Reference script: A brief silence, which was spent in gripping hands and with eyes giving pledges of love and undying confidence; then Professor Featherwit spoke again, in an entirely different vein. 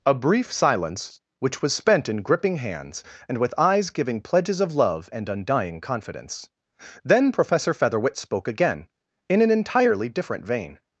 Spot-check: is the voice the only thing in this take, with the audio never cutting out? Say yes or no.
yes